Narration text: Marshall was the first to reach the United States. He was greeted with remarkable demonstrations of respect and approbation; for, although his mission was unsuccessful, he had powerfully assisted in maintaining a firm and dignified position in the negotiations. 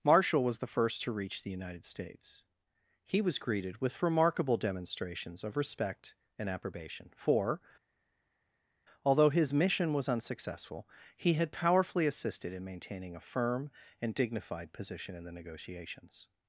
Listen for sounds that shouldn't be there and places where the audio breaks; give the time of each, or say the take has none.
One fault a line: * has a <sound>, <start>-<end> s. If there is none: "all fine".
all fine